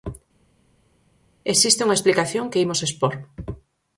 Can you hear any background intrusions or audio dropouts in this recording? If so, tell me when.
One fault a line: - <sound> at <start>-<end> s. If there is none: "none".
none